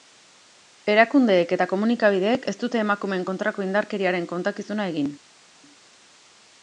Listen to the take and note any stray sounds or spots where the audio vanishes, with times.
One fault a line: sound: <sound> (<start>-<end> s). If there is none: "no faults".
no faults